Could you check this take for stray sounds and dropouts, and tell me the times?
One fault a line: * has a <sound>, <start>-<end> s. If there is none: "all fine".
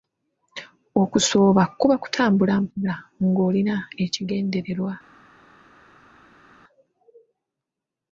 all fine